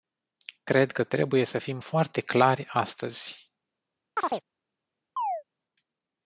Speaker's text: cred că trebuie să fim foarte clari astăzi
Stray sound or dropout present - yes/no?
yes